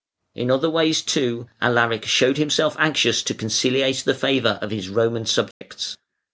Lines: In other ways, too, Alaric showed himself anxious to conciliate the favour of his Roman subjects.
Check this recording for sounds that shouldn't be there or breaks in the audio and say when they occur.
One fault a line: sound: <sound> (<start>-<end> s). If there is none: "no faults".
sound: dropout (5.5-5.6 s)